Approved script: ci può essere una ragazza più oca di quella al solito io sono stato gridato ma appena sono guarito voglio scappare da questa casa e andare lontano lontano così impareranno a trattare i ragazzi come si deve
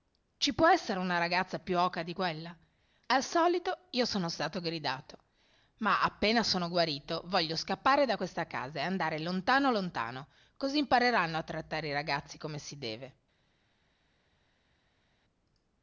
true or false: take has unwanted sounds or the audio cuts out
false